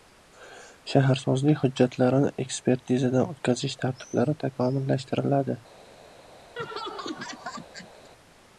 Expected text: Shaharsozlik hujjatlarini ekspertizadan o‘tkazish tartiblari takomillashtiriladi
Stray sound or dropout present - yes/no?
yes